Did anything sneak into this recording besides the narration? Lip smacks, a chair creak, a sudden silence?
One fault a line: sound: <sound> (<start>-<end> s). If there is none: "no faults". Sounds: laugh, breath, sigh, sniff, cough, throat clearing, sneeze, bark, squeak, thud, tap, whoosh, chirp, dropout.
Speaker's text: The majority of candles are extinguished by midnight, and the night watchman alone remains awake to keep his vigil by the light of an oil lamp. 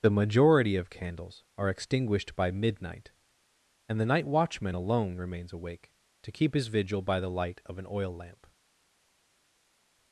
no faults